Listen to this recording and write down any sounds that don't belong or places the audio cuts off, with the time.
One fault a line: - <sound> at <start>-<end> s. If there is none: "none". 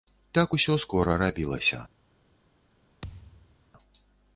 - thud at 3.0-3.7 s